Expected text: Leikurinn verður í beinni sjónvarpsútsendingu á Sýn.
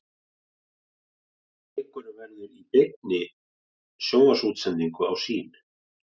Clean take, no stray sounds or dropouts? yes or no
yes